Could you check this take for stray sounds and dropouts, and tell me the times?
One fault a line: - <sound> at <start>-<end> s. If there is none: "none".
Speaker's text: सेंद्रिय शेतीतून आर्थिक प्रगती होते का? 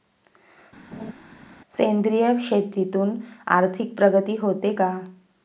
- laugh at 0.9-1.1 s